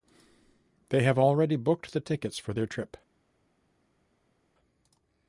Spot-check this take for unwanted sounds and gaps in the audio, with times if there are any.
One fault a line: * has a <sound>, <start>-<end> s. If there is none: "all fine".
all fine